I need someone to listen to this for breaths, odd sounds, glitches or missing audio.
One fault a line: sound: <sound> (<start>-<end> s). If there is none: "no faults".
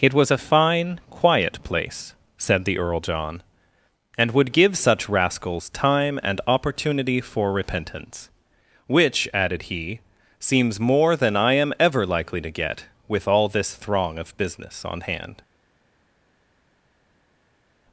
no faults